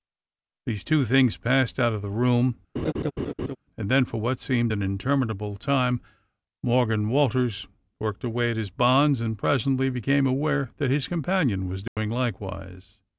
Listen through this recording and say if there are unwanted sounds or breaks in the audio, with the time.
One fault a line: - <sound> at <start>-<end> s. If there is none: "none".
- laugh at 2.8-3.6 s
- dropout at 11.9-12.0 s